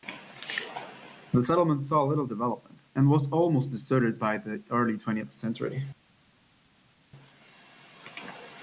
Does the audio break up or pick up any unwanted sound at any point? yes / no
no